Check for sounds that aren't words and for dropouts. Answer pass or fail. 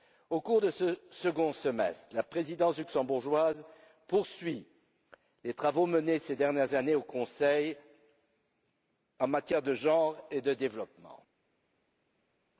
pass